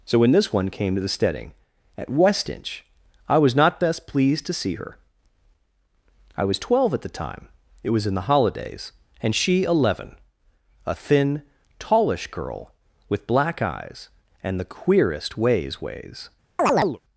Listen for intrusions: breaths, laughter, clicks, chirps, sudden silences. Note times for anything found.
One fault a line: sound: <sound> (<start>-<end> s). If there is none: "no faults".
sound: chirp (16.6-17.0 s)